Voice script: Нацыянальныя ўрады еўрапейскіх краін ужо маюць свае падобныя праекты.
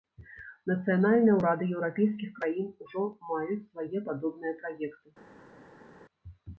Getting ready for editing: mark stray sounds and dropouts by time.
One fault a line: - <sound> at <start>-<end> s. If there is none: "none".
none